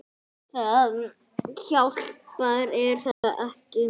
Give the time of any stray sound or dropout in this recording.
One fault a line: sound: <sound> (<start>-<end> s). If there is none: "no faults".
sound: dropout (3.1-3.2 s)